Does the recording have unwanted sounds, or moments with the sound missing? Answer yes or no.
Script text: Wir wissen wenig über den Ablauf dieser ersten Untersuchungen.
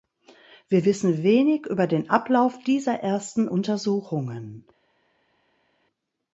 no